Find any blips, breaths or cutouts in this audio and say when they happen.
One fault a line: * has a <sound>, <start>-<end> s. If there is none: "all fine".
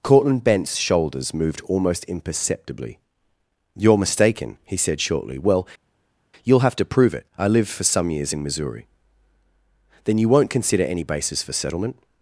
all fine